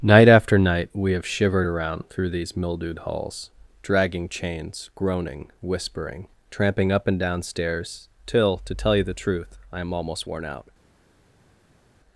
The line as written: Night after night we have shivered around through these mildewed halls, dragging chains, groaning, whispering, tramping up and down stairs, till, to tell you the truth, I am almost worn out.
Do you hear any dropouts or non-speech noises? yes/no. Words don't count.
no